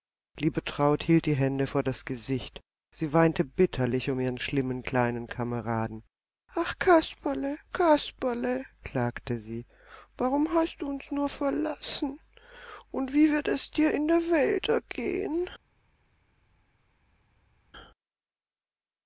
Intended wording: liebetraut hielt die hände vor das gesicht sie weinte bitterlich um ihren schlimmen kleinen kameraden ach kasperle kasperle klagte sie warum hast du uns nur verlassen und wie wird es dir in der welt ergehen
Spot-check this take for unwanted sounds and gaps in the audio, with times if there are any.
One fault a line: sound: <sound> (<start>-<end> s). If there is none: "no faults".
no faults